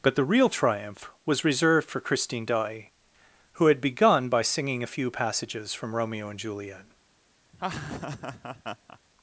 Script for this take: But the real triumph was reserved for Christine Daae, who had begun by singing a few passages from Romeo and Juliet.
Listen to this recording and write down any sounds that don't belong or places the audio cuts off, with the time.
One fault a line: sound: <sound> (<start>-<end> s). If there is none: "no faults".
sound: laugh (7.5-9.0 s)